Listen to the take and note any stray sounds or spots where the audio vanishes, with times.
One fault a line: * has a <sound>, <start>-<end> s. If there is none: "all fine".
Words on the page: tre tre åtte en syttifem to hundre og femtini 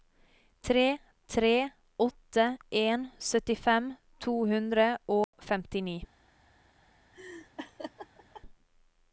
* has a dropout, 5.2-5.3 s
* has a laugh, 7.1-8.4 s